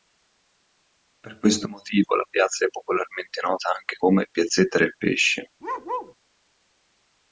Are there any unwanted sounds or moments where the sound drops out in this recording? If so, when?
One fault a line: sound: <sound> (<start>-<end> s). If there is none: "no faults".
sound: bark (5.6-6.2 s)